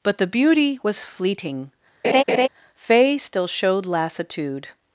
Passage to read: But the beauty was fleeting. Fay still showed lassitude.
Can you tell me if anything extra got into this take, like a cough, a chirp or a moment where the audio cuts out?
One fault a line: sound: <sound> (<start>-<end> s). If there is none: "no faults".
sound: laugh (2.0-2.5 s)